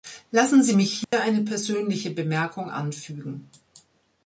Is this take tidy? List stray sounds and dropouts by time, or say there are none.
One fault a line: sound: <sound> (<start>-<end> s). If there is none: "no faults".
sound: dropout (1.0-1.1 s)